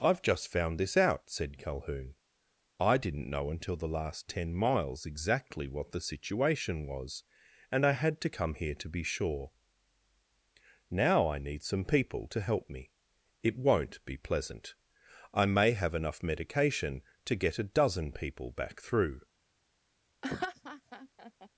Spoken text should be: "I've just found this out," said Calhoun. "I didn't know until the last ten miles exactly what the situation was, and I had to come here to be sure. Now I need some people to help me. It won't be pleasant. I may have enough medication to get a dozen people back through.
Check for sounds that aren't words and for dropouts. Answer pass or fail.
fail